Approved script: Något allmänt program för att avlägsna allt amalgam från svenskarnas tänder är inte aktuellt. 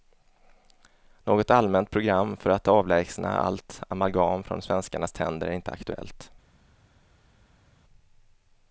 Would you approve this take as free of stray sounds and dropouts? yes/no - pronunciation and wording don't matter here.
yes